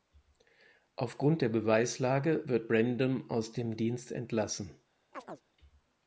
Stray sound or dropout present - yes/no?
yes